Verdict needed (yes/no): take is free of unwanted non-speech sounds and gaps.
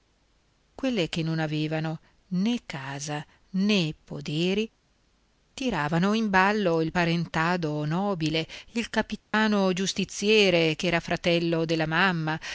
no